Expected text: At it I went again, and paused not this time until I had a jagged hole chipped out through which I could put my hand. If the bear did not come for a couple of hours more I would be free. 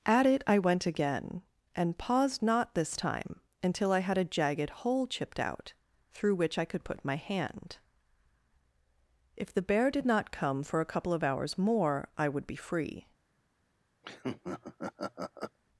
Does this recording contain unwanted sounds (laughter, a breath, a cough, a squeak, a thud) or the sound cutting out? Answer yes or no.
yes